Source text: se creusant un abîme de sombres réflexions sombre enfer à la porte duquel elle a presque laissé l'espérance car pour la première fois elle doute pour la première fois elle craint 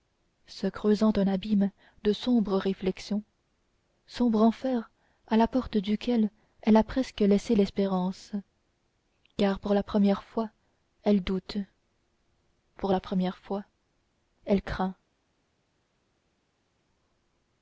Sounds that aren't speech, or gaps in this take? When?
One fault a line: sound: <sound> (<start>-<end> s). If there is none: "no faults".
no faults